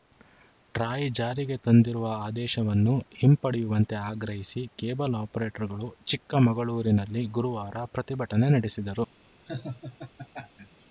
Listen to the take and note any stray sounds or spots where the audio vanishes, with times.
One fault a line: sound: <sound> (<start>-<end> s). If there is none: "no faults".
sound: laugh (9.5-10.8 s)